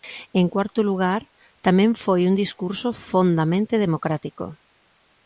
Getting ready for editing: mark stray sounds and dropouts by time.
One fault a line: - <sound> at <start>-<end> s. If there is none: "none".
none